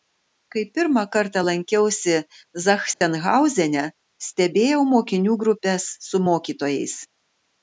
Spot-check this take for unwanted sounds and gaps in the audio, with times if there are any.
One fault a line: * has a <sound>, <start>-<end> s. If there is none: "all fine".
* has a dropout, 2.9-3.0 s